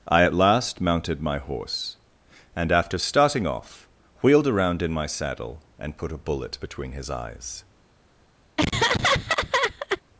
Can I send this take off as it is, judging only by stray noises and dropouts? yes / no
no